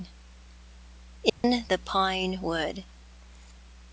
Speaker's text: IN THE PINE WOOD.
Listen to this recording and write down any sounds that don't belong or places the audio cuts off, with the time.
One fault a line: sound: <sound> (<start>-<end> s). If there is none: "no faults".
sound: dropout (1.3-1.4 s)